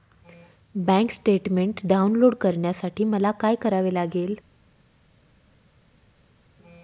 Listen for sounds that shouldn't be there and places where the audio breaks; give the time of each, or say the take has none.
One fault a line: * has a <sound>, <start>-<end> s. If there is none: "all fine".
all fine